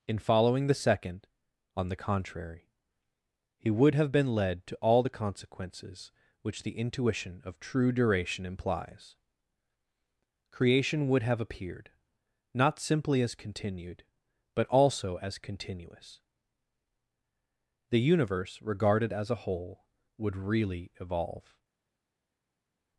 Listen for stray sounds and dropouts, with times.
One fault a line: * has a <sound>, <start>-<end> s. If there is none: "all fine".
all fine